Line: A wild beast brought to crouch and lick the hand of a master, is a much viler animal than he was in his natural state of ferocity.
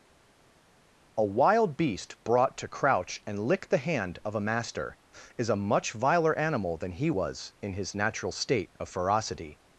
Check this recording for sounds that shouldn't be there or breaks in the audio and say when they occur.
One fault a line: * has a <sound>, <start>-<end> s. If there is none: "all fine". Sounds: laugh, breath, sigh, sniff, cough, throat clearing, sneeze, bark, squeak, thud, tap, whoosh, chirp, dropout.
all fine